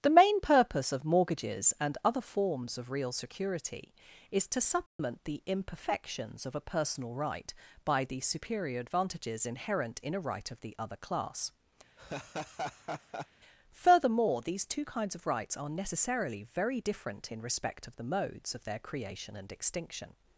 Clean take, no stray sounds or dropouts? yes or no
no